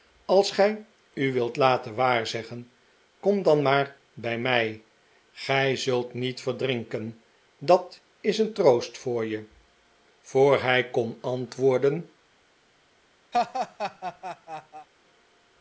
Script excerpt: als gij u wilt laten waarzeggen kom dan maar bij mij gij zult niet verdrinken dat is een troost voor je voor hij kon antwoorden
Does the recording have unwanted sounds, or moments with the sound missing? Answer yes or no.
yes